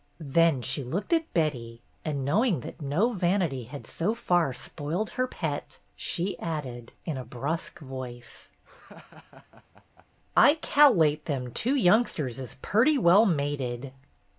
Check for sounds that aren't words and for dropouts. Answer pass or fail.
fail